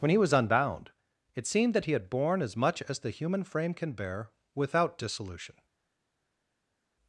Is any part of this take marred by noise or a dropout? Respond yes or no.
no